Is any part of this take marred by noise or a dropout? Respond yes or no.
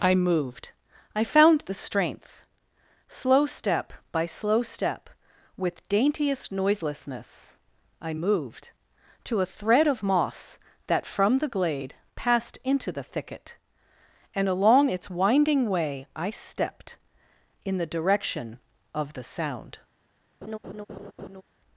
yes